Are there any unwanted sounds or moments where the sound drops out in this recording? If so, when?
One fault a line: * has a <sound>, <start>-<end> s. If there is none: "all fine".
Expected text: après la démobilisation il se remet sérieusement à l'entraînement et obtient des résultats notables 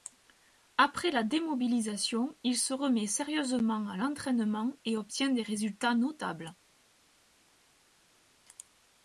all fine